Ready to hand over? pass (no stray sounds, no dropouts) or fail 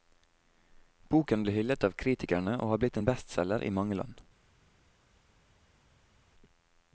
pass